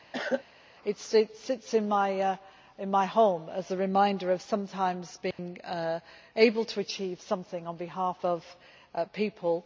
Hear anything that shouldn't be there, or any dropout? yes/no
yes